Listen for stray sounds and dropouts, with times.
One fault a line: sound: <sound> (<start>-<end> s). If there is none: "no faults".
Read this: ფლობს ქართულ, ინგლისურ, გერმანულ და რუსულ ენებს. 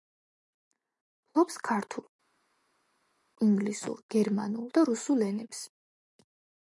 no faults